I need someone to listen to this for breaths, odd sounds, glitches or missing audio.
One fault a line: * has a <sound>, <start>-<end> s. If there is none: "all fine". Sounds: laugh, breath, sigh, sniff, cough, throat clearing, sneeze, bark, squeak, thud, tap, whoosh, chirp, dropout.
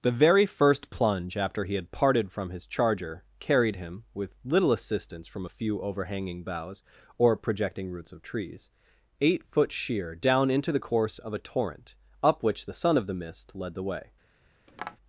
* has a tap, 14.7-15.0 s